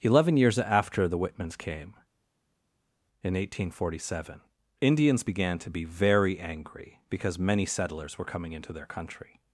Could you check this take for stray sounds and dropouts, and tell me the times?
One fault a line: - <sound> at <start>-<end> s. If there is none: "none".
none